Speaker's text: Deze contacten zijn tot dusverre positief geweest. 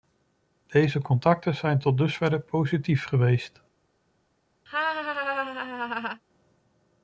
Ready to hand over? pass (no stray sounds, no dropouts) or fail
fail